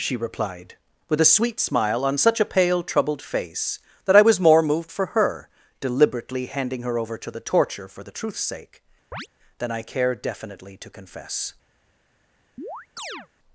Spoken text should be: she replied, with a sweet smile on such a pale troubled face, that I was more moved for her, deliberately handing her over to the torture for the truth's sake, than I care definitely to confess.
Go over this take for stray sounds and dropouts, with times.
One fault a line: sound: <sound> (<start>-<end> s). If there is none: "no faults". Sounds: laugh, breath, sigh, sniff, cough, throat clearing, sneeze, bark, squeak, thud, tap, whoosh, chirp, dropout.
sound: chirp (9.1-9.3 s)
sound: chirp (12.6-13.3 s)